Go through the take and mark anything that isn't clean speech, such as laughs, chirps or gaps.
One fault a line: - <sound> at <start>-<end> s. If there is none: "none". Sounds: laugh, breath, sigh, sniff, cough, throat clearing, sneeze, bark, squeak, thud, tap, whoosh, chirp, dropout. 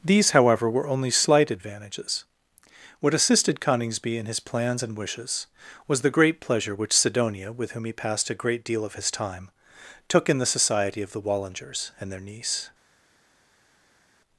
none